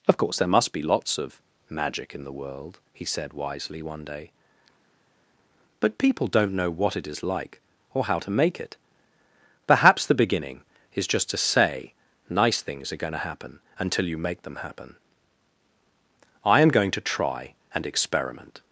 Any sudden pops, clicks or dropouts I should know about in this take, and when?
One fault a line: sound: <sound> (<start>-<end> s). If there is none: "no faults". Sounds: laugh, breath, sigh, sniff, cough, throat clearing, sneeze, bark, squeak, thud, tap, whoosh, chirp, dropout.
no faults